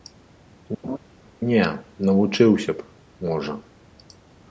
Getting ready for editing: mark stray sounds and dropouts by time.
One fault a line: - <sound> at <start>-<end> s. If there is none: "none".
- laugh at 0.8-1.0 s